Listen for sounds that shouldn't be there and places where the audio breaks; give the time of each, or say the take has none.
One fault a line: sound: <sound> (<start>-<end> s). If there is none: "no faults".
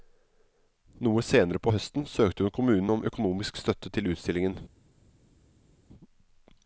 no faults